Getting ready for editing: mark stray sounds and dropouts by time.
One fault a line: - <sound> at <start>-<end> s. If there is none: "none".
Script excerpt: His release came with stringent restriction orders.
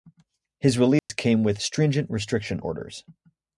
- dropout at 1.0-1.1 s